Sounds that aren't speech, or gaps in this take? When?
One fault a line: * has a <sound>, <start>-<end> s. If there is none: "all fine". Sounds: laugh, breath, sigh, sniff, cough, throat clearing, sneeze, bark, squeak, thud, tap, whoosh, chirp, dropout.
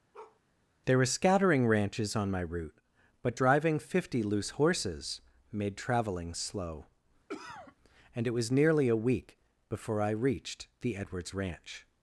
* has a bark, 0.1-0.4 s
* has a cough, 7.3-7.8 s